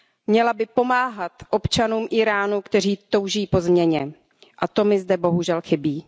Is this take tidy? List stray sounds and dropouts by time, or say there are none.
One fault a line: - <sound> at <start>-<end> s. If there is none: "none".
none